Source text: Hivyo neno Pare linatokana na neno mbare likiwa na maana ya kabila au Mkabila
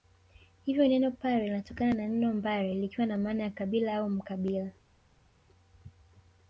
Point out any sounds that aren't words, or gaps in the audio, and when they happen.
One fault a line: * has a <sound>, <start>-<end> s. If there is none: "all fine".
all fine